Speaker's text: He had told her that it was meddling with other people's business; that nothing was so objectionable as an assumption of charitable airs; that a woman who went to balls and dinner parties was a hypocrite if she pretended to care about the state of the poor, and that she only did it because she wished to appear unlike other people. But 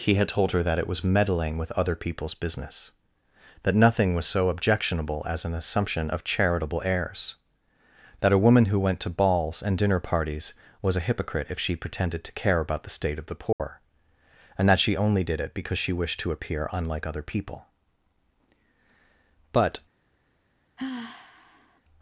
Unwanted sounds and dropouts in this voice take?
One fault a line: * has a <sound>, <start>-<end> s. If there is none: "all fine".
* has a dropout, 13.5-13.6 s
* has a sigh, 20.8-21.8 s